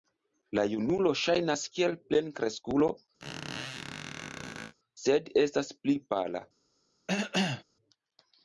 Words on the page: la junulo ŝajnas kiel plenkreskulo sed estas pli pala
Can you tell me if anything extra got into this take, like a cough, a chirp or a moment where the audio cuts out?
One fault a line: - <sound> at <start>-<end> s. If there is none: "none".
- squeak at 3.2-4.7 s
- cough at 7.1-7.6 s